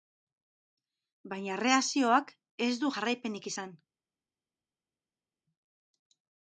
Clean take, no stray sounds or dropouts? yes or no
yes